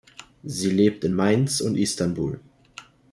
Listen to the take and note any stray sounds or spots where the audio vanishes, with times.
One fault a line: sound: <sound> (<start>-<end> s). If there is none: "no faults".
no faults